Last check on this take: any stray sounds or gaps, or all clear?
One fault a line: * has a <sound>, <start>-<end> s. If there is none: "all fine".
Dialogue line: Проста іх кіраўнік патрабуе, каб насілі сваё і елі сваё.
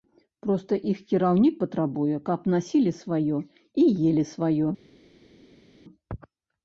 all fine